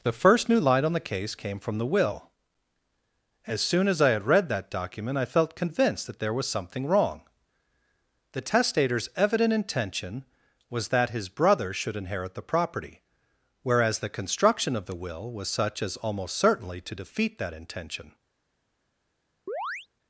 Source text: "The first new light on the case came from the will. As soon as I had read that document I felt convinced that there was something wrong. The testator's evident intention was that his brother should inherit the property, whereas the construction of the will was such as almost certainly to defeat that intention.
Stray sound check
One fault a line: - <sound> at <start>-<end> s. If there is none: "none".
- chirp at 19.5-19.9 s